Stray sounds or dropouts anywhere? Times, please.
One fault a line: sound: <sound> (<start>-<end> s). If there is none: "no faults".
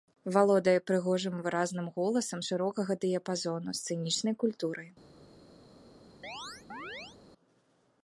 sound: chirp (6.2-7.2 s)